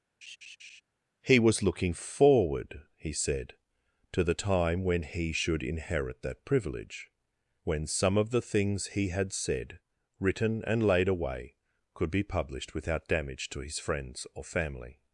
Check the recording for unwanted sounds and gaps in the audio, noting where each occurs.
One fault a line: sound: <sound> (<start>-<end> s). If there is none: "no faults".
sound: laugh (0.2-0.8 s)